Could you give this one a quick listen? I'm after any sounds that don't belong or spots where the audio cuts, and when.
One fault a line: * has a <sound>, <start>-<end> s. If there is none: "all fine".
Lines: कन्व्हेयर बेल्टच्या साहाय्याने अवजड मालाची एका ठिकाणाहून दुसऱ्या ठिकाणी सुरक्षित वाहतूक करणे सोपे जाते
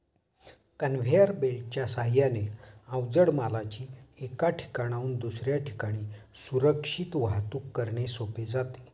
all fine